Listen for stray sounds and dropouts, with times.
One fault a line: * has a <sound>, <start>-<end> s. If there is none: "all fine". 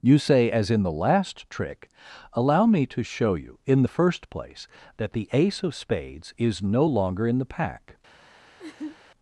* has a laugh, 8.6-9.0 s